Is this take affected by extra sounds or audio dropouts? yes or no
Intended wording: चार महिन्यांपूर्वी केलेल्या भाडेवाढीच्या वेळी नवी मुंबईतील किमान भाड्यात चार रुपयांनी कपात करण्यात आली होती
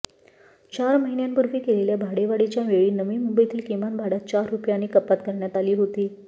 no